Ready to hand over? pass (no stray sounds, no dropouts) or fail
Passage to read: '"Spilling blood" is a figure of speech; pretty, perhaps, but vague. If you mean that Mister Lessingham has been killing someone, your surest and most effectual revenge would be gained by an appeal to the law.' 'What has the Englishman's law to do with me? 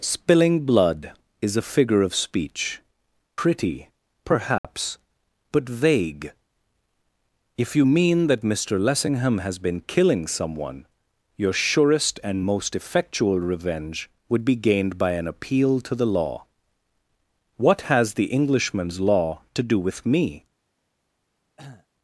fail